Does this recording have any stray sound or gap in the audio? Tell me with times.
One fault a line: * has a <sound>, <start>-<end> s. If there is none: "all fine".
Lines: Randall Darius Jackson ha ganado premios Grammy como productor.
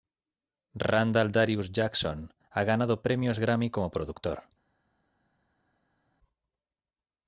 all fine